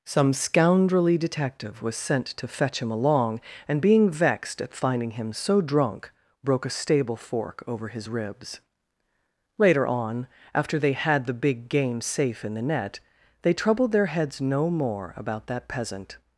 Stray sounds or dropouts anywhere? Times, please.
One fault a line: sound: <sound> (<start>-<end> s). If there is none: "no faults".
no faults